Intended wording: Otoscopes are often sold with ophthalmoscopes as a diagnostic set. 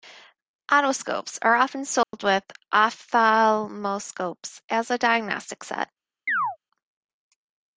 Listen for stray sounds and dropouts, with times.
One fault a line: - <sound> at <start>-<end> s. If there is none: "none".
- dropout at 2.0-2.1 s
- chirp at 6.3-6.6 s